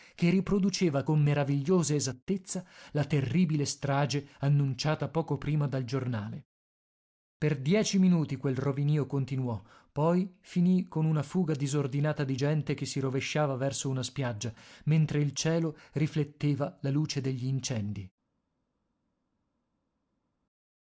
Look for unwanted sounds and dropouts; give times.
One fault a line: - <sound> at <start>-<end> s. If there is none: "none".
none